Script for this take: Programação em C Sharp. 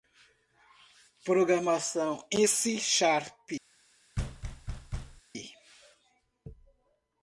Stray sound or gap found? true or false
true